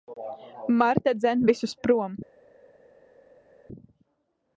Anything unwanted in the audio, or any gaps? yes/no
no